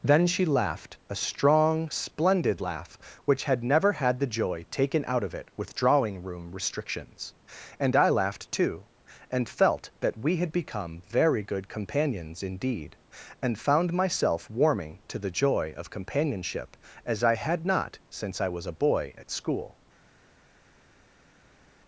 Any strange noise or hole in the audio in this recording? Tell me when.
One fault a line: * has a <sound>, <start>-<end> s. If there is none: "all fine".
all fine